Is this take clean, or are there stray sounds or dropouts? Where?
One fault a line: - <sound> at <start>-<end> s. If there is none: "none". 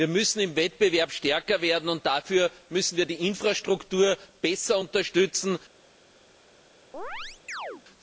- chirp at 6.9-7.8 s